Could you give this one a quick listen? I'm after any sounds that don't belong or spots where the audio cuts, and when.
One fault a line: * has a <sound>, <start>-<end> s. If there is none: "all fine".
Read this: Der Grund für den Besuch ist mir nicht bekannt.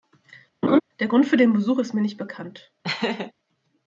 * has a laugh, 0.6-0.8 s
* has a laugh, 2.8-3.3 s